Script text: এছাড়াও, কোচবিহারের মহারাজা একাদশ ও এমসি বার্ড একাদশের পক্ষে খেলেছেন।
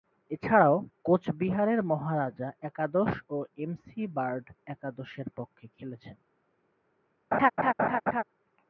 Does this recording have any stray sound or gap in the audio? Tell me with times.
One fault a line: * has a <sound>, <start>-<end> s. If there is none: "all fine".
* has a laugh, 7.3-8.2 s